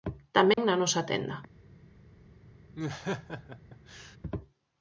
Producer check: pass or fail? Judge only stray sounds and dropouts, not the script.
fail